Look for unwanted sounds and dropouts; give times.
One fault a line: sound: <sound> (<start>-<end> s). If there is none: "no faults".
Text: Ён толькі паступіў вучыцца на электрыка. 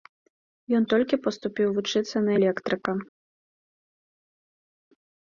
no faults